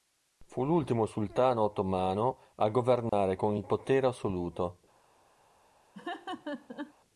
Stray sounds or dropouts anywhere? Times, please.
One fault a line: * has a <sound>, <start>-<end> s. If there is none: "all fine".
* has a dropout, 3.1-3.1 s
* has a laugh, 5.9-6.9 s